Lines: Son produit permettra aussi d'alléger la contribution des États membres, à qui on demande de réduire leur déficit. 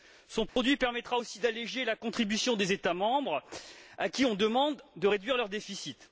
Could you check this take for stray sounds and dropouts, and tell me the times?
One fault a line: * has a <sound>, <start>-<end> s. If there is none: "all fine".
* has a dropout, 0.5-0.6 s